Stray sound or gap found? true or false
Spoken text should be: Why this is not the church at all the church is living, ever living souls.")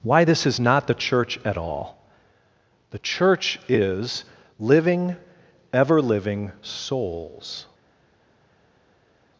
false